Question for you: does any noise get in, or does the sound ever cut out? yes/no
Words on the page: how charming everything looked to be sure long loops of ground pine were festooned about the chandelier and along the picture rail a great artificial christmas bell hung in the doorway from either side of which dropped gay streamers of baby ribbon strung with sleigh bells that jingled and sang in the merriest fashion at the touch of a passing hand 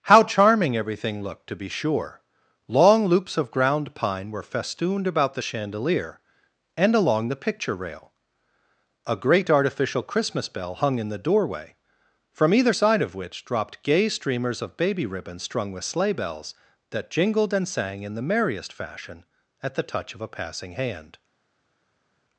no